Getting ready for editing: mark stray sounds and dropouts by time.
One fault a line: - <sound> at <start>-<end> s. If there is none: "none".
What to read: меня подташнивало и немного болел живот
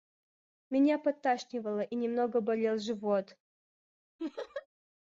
- laugh at 4.2-4.7 s